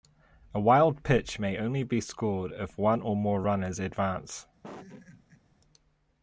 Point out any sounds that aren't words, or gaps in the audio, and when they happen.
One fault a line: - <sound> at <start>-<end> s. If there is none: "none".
- laugh at 4.6-5.4 s